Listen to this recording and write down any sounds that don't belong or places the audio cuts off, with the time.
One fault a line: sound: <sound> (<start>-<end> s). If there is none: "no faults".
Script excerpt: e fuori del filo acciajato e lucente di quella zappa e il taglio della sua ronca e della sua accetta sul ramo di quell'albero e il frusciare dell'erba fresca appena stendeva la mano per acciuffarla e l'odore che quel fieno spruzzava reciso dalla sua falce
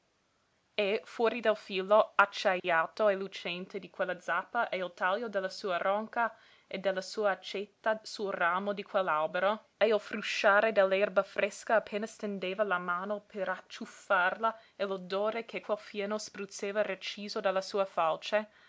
sound: dropout (2.6-2.6 s)